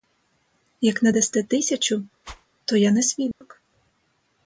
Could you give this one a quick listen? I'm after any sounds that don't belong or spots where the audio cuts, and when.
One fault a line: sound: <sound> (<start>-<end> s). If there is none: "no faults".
sound: whoosh (2.2-2.5 s)
sound: dropout (3.3-3.4 s)